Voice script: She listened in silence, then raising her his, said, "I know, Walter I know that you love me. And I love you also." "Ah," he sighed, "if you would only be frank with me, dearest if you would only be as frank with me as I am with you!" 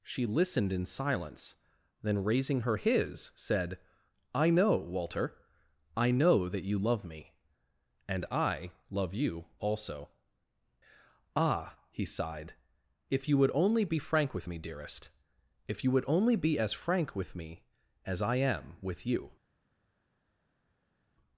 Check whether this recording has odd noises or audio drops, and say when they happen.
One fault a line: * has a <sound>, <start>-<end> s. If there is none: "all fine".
all fine